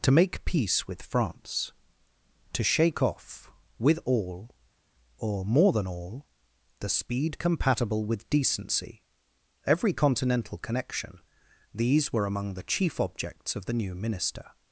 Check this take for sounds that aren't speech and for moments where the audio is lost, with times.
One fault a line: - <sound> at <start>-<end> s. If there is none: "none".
none